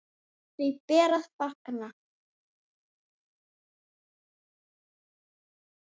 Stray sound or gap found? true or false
false